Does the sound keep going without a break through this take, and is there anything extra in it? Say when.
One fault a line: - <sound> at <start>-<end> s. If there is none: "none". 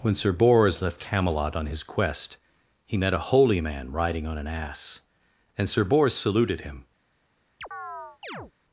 - chirp at 7.6-8.5 s